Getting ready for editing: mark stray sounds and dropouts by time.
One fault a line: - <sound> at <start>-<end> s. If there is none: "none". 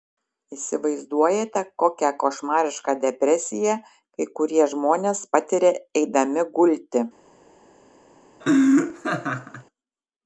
- laugh at 8.4-9.6 s